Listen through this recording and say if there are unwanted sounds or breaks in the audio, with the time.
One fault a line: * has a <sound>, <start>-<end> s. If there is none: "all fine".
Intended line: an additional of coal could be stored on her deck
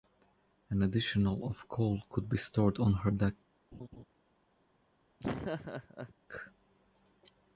* has a laugh, 3.7-4.0 s
* has a laugh, 5.2-6.1 s